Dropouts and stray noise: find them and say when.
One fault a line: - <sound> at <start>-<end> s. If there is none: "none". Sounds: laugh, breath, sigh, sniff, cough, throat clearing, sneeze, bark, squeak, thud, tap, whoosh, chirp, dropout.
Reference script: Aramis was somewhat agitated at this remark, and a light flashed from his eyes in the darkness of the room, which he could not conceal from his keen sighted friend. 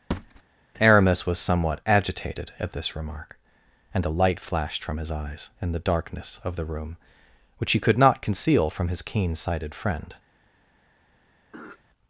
- thud at 0.1-0.4 s
- throat clearing at 11.5-11.8 s